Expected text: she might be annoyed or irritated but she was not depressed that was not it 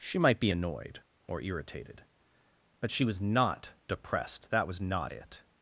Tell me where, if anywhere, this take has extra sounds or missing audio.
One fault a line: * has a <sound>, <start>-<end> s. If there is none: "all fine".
all fine